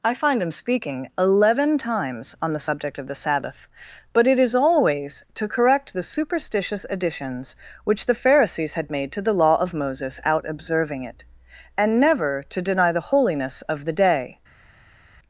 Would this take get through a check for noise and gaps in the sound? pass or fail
pass